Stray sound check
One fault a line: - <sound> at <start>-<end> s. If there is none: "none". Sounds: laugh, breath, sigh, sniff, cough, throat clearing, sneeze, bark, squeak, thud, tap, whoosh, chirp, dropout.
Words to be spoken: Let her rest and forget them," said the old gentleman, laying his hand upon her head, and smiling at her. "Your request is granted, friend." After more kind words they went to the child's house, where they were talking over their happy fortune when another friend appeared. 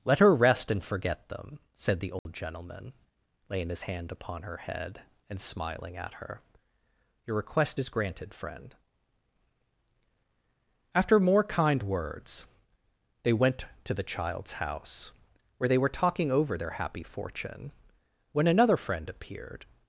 - dropout at 2.2-2.3 s